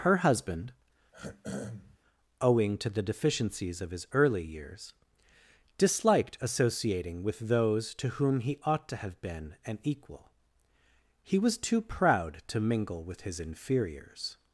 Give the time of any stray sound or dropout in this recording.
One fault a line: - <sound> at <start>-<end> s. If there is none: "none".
- throat clearing at 1.1-2.0 s